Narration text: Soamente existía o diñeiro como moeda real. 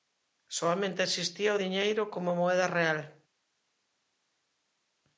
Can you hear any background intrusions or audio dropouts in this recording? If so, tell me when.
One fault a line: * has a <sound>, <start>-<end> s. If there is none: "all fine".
all fine